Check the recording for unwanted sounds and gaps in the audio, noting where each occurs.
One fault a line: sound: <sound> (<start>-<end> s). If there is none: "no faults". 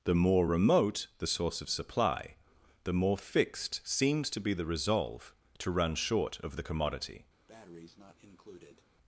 sound: breath (7.5-8.9 s)